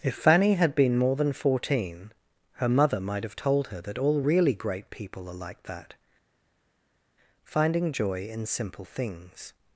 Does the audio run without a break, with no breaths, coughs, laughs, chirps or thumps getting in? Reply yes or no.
yes